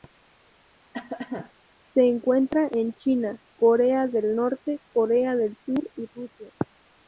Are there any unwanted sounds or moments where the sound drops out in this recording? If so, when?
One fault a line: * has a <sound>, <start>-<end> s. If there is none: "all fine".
* has a cough, 0.9-1.5 s